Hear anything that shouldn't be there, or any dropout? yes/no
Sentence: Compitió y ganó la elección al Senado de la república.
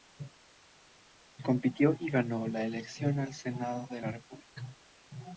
no